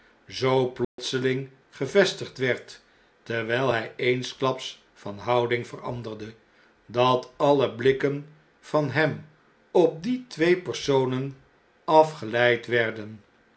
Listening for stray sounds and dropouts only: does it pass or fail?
fail